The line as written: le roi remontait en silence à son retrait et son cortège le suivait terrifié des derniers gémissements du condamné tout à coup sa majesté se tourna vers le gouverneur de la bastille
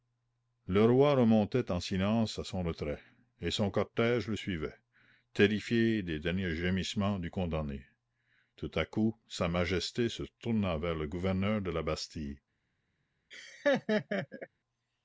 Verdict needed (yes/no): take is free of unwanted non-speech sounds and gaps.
no